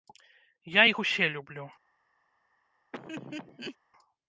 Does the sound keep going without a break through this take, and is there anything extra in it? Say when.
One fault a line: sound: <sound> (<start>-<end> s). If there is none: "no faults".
sound: laugh (2.9-3.8 s)